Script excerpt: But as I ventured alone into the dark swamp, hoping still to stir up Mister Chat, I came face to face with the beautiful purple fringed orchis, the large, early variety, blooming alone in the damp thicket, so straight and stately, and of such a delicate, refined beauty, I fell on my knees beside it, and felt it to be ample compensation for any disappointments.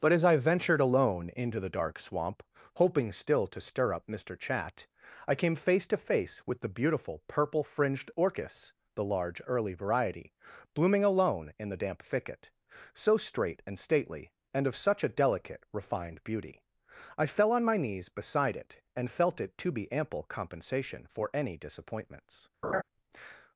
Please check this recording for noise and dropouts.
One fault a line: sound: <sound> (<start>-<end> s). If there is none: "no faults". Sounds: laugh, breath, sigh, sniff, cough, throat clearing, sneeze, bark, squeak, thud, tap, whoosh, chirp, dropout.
sound: laugh (22.6-22.8 s)